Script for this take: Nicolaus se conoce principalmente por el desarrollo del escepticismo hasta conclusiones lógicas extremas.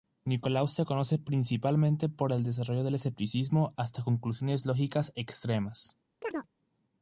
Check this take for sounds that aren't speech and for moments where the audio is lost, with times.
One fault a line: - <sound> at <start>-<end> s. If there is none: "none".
- chirp at 6.2-6.5 s